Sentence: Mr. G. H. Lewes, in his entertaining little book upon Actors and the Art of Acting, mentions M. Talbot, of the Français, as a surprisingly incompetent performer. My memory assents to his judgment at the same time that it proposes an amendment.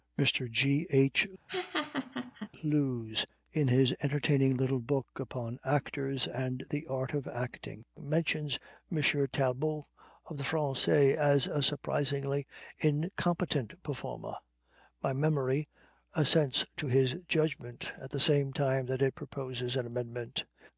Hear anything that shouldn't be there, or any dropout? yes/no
yes